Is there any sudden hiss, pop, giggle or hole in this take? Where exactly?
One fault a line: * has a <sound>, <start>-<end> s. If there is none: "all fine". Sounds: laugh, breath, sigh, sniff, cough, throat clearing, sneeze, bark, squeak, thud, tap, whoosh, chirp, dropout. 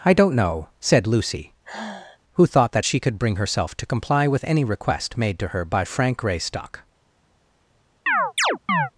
* has a sigh, 1.6-2.2 s
* has a chirp, 8.1-8.9 s